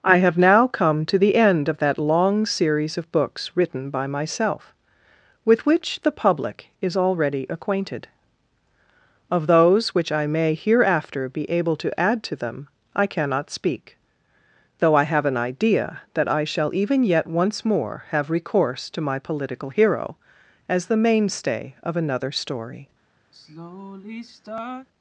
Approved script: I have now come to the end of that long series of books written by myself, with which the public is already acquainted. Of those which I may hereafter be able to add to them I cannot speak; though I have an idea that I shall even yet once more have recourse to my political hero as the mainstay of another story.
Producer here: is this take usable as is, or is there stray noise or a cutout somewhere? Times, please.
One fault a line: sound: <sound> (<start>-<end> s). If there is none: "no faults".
sound: sigh (23.3-24.9 s)